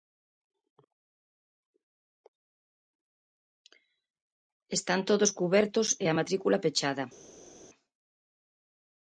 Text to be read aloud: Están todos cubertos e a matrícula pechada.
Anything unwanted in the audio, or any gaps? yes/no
no